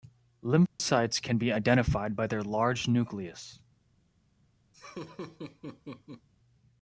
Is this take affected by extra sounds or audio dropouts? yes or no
yes